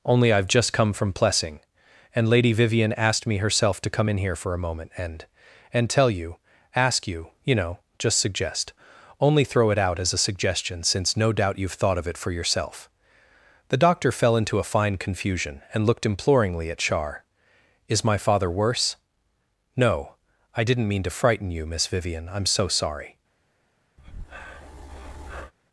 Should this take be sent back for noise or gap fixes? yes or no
yes